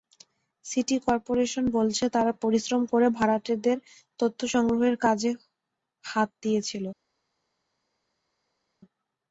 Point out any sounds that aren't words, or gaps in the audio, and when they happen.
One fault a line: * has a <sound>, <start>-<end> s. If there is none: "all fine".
all fine